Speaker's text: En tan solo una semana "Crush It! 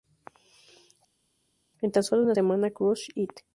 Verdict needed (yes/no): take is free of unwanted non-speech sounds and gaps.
yes